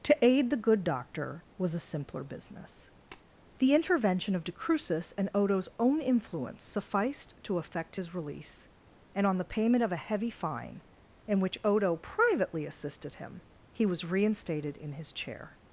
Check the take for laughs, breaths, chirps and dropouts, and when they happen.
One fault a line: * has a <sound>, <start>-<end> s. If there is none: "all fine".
* has a tap, 3.1-3.3 s